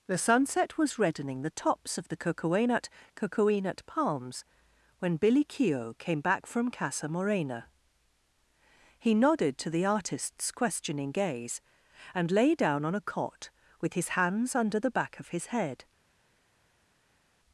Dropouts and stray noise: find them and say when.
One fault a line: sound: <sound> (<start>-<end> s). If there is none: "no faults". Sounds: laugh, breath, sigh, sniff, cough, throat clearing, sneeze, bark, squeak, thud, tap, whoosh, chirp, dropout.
no faults